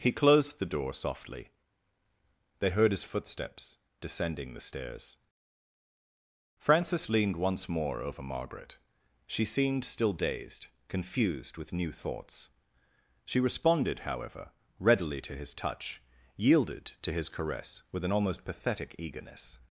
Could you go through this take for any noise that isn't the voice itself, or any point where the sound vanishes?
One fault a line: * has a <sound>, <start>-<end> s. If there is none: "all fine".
all fine